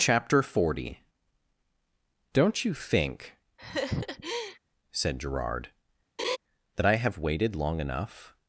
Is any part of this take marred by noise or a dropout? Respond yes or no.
yes